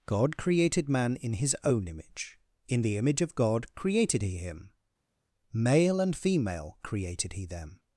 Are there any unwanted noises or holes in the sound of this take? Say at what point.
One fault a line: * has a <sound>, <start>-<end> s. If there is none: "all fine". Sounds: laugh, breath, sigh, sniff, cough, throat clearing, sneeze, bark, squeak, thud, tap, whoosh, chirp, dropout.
all fine